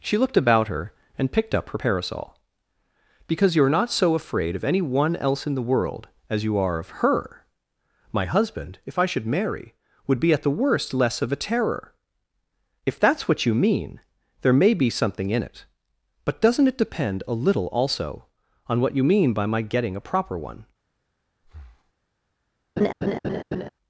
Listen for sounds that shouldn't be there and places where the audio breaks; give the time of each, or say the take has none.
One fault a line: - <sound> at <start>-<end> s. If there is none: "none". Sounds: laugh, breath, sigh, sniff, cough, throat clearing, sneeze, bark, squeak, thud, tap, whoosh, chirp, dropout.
- breath at 21.4-21.9 s
- laugh at 22.8-23.7 s